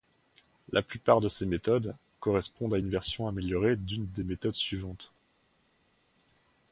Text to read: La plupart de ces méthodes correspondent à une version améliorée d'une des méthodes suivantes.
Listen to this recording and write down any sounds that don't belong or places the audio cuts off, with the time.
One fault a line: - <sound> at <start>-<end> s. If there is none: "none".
none